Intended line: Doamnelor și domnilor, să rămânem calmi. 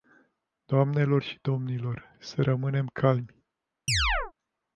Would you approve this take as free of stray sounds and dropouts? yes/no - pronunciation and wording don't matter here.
no